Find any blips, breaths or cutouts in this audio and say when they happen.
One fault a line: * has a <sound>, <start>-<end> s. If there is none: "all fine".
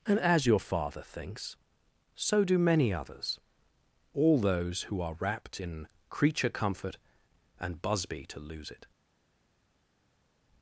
all fine